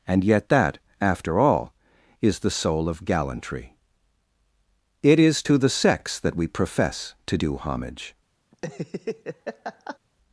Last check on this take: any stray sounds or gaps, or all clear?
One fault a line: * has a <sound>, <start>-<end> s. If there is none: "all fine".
* has a laugh, 8.5-10.0 s